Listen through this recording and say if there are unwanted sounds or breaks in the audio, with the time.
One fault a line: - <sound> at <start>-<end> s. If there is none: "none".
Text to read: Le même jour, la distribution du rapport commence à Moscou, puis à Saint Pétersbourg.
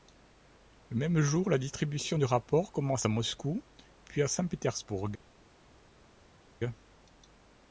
none